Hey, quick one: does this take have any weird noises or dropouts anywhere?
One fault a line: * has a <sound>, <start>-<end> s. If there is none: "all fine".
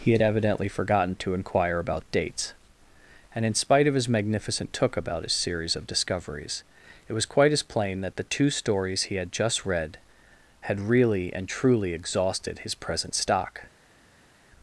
all fine